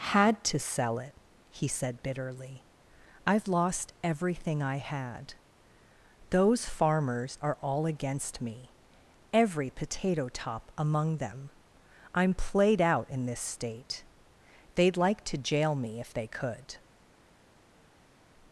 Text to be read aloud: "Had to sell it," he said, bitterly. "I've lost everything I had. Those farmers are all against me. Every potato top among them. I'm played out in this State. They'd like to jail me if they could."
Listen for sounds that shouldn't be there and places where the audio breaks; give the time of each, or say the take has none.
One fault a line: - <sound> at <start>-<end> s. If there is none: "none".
none